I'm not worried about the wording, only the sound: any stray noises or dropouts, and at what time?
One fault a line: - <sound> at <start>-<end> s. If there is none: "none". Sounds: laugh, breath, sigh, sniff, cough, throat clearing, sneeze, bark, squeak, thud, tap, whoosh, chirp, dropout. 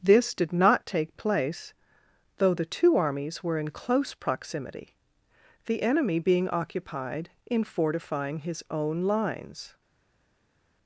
none